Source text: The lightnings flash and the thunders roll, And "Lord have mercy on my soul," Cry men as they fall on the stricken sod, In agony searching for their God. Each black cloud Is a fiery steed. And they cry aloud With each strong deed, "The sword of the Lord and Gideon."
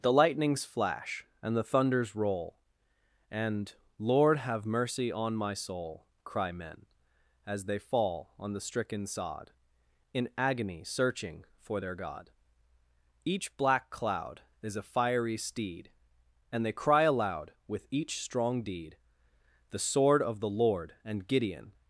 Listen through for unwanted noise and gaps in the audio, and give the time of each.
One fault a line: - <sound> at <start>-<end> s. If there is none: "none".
none